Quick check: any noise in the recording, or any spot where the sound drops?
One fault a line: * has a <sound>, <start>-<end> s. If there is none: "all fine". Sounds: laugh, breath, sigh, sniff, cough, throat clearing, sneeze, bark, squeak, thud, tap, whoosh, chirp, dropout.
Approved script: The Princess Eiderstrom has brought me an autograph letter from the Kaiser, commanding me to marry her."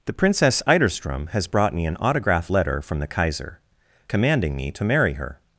all fine